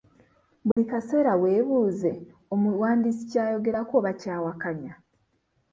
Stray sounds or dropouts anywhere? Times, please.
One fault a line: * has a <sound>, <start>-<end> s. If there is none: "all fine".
* has a dropout, 0.7-0.8 s